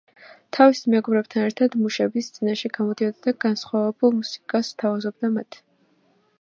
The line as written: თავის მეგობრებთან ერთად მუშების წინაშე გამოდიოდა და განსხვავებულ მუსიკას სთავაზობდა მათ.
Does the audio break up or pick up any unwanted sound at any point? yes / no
no